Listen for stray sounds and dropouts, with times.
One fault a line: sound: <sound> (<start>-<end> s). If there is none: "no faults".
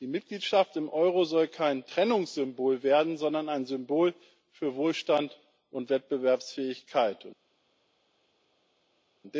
no faults